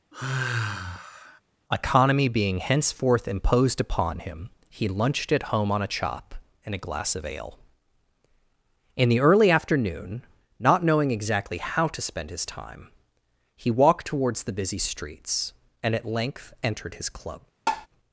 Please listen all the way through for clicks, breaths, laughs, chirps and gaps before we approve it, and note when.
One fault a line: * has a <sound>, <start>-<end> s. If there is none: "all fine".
* has a sigh, 0.1-1.4 s
* has a tap, 17.7-17.9 s